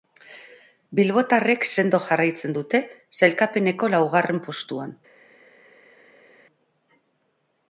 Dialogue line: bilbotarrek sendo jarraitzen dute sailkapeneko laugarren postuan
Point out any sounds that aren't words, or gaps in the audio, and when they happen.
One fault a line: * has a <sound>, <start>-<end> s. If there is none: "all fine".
all fine